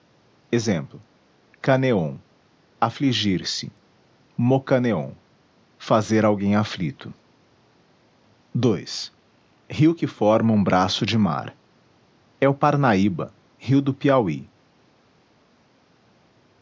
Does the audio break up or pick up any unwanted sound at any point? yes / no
no